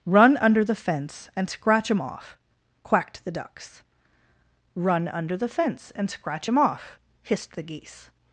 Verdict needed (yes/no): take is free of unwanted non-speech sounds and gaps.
yes